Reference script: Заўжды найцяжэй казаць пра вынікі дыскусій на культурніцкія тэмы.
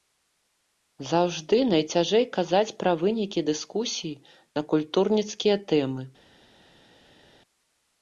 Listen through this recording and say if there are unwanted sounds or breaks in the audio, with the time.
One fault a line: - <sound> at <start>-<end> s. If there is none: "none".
none